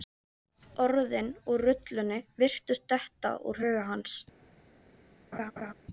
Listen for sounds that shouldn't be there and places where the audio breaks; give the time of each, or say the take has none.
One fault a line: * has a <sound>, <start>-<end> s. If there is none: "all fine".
* has a laugh, 5.3-5.7 s